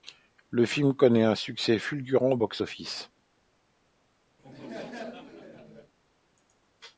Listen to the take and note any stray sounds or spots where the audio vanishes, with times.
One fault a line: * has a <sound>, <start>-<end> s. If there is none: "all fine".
* has a laugh, 4.4-5.9 s